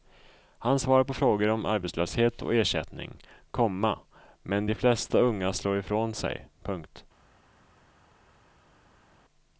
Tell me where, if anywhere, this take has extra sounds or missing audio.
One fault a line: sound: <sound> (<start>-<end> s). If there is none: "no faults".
no faults